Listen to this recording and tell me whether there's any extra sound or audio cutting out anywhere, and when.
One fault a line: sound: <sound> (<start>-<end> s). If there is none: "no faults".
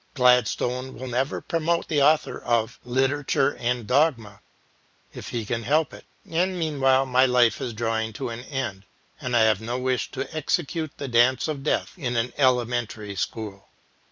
no faults